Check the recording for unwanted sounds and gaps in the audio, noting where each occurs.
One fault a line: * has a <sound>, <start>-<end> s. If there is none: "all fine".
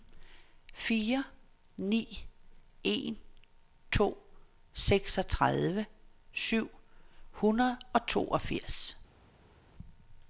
all fine